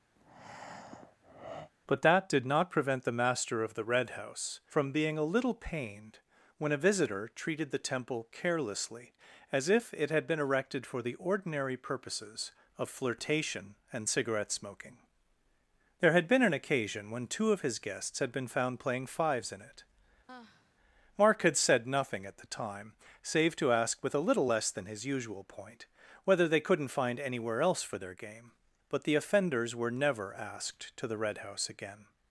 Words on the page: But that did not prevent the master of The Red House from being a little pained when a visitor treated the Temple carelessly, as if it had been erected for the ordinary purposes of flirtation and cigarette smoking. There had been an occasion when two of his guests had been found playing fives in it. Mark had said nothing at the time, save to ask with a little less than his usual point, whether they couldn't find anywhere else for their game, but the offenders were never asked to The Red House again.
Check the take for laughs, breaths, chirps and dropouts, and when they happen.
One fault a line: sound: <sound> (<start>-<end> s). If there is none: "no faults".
sound: breath (0.2-1.7 s)
sound: sigh (20.3-20.8 s)